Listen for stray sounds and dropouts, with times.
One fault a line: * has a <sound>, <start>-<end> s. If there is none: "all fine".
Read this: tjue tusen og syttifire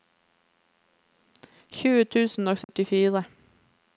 * has a dropout, 2.6-2.7 s